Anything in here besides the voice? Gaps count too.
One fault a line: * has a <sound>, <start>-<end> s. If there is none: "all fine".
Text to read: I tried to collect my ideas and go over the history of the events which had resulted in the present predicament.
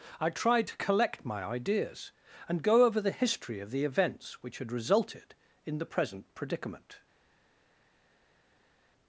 all fine